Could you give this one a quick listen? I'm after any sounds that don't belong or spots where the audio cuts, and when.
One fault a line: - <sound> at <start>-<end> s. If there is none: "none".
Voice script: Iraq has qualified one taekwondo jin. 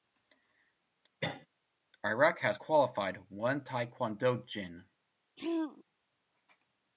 - cough at 1.2-1.5 s
- throat clearing at 5.4-5.8 s